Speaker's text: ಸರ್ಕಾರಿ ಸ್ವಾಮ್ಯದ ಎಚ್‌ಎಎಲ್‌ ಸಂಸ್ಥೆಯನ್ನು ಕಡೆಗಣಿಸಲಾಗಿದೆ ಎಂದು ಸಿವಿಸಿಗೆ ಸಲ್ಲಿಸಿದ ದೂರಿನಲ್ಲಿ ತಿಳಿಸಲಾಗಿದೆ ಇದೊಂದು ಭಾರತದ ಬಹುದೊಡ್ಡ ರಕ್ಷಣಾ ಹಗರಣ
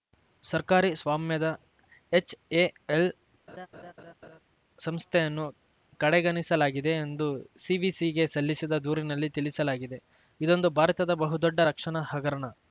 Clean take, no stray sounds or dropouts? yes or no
no